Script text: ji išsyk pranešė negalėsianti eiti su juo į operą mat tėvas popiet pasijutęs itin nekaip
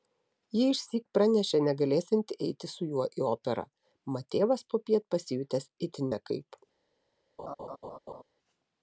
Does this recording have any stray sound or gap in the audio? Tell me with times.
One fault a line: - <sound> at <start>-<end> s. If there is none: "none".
- laugh at 7.4-8.2 s